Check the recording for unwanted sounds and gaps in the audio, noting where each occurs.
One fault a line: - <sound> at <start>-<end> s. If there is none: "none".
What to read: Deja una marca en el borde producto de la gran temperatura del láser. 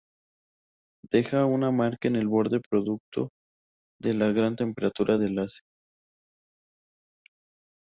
none